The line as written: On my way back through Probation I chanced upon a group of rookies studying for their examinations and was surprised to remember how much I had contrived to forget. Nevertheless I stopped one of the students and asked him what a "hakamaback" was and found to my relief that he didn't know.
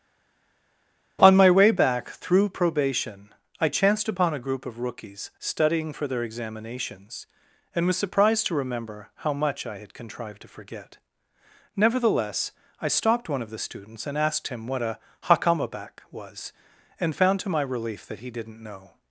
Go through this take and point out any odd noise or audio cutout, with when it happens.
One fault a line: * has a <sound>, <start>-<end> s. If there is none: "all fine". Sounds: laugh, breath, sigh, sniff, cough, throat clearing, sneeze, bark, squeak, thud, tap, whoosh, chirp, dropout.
all fine